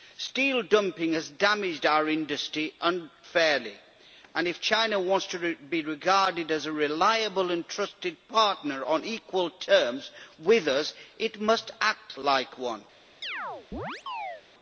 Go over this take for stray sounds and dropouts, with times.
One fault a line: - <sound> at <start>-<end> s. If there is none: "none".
- chirp at 13.2-14.4 s